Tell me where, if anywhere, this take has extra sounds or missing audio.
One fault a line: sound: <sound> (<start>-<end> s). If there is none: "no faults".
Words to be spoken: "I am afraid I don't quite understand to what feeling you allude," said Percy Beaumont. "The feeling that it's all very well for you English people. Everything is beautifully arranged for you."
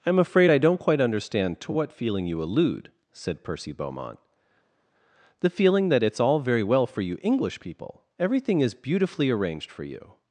no faults